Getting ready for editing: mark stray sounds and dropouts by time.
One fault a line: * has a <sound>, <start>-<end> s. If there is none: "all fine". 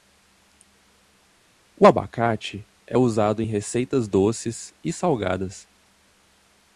all fine